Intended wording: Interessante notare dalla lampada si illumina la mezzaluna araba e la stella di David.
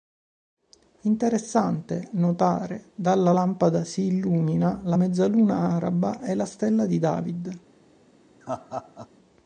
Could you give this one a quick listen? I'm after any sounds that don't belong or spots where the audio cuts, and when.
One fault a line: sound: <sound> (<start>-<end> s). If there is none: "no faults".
sound: laugh (8.4-9.1 s)